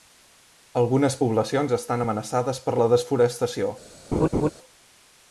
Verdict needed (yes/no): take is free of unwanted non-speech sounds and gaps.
no